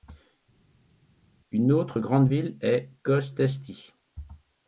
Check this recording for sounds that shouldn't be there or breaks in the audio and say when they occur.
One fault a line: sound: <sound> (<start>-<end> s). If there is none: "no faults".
no faults